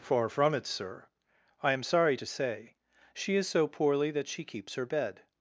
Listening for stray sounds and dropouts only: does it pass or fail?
pass